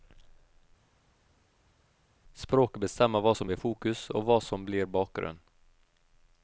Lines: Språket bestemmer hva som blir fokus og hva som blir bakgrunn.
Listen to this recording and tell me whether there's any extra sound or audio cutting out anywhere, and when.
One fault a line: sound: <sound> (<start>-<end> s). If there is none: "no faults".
no faults